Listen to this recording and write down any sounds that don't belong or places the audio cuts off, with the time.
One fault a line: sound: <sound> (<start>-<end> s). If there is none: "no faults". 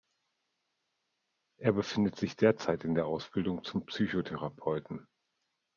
no faults